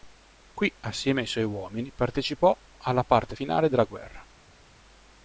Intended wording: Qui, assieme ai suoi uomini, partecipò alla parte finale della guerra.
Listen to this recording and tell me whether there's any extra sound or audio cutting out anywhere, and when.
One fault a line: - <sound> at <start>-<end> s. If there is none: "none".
none